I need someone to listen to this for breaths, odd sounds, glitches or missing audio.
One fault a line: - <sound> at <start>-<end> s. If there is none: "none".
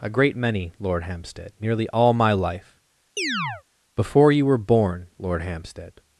- chirp at 3.2-3.6 s